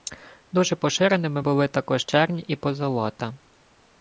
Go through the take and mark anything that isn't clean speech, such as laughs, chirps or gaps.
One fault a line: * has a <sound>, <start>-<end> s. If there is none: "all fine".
all fine